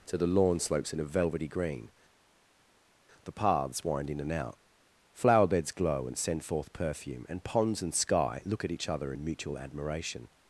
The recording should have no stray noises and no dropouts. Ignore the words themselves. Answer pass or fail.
pass